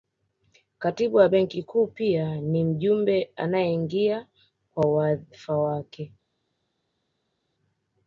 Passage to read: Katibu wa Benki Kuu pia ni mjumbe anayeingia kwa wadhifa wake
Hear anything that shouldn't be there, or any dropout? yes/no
no